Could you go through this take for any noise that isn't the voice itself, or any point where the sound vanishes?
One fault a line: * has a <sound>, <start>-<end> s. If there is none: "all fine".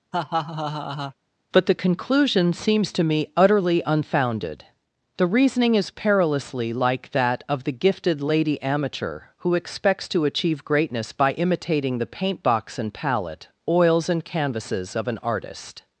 * has a laugh, 0.1-1.1 s